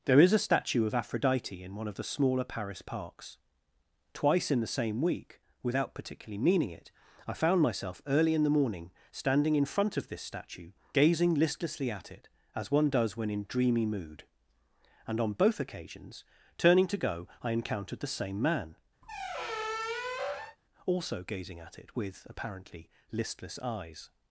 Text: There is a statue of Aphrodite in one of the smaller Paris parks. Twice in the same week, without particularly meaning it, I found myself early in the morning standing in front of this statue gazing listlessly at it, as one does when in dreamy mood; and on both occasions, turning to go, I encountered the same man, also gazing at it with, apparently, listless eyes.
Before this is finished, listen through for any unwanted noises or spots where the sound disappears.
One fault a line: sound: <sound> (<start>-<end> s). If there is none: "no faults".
sound: squeak (19.0-20.6 s)